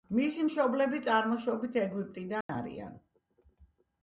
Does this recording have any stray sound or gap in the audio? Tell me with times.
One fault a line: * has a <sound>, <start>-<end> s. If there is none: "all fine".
* has a dropout, 2.4-2.5 s